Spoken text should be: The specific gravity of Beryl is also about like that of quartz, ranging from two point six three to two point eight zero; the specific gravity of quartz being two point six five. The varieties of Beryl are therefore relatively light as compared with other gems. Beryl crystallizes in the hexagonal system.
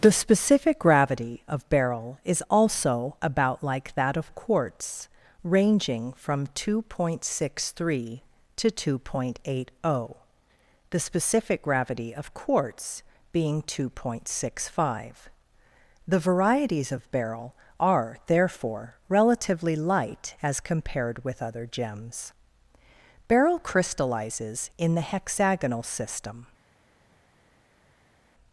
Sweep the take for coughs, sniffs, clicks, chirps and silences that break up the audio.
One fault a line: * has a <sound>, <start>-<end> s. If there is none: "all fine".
all fine